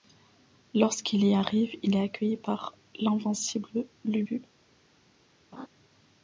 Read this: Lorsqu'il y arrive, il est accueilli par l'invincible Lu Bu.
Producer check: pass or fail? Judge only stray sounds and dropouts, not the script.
fail